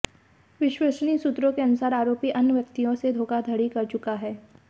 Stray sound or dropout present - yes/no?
no